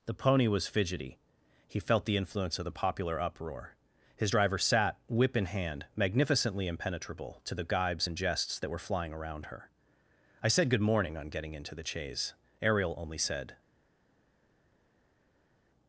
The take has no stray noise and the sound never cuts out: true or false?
true